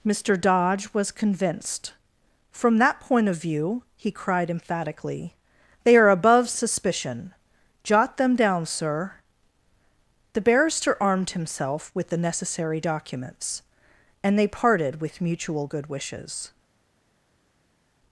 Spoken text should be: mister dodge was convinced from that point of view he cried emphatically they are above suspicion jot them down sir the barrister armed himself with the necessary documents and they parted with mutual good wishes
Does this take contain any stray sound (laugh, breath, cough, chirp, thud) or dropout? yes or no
no